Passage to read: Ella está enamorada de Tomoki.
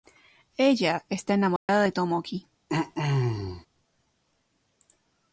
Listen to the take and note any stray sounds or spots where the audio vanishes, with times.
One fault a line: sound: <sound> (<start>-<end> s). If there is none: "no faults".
sound: dropout (1.6-1.7 s)
sound: throat clearing (2.7-3.7 s)